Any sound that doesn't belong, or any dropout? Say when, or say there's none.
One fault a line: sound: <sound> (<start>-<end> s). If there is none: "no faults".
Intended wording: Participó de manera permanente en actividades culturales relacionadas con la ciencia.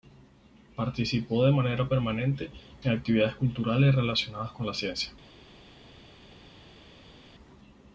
no faults